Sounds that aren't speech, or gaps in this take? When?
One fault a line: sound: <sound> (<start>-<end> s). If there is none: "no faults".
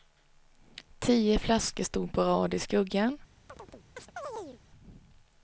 sound: chirp (3.5-4.6 s)